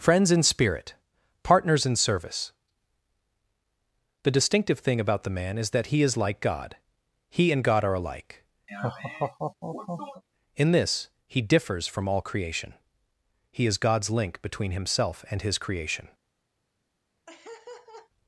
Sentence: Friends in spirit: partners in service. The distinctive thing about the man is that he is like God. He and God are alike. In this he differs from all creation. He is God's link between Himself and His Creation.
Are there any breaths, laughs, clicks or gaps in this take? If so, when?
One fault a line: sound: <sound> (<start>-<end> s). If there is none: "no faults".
sound: laugh (8.7-10.2 s)
sound: laugh (17.3-18.1 s)